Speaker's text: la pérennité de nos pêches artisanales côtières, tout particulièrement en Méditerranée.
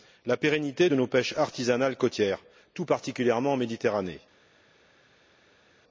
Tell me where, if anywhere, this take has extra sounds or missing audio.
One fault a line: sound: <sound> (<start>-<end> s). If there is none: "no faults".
no faults